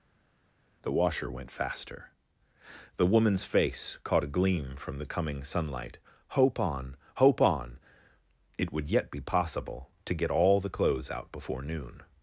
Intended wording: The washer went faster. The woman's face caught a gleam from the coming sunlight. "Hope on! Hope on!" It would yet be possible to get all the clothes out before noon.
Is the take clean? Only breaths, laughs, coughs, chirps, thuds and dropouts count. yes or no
yes